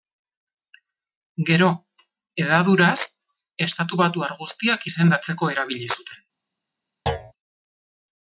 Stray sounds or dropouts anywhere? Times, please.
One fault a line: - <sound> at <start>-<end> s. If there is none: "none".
- thud at 7.1-7.3 s